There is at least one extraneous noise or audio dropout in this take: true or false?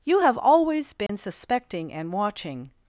true